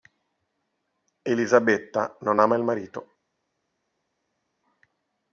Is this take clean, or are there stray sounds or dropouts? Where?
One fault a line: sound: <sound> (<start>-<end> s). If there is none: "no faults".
no faults